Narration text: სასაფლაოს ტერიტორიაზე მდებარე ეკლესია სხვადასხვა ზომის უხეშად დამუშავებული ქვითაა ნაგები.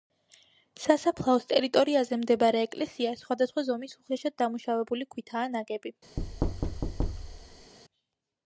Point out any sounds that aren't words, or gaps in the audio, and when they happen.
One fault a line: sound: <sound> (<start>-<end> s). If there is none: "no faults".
sound: thud (6.2-7.7 s)